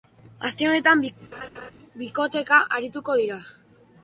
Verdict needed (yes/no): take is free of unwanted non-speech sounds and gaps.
no